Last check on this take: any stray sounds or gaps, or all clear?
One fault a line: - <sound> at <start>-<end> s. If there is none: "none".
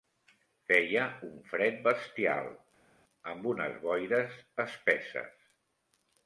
none